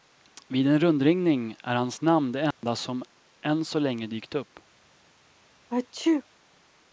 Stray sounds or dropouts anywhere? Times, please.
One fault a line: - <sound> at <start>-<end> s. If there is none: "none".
- dropout at 2.5-2.6 s
- sneeze at 5.7-6.2 s